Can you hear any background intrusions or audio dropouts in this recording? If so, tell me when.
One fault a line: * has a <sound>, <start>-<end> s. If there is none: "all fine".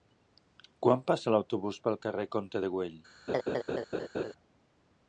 * has a laugh, 3.3-4.3 s